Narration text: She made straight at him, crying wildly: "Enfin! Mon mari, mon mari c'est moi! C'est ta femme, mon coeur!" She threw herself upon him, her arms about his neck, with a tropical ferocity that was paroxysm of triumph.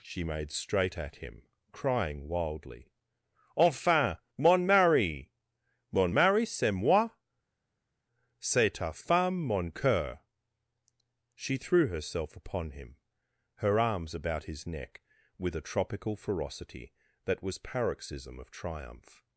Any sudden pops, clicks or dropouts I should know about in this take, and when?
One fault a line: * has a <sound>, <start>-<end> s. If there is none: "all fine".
all fine